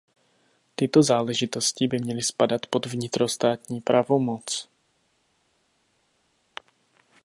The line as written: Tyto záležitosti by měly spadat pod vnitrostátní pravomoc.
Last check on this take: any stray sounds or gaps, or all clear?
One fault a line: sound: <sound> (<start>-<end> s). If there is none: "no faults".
no faults